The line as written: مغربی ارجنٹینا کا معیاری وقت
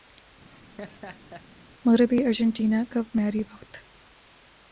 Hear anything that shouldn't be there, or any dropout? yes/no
yes